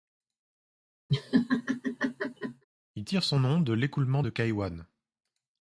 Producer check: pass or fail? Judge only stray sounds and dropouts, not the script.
fail